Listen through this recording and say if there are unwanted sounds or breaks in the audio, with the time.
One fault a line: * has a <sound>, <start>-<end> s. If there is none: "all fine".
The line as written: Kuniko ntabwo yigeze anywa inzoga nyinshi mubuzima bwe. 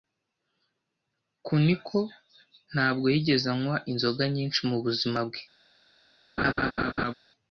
* has a laugh, 6.4-7.1 s